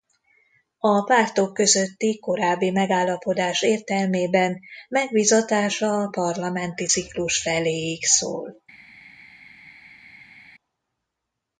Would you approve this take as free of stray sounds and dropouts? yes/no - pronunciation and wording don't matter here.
yes